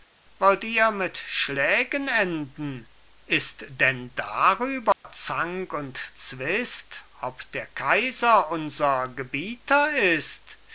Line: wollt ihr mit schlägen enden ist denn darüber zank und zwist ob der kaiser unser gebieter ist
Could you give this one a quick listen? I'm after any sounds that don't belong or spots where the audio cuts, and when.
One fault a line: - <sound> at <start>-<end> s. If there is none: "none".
- dropout at 4.9-5.0 s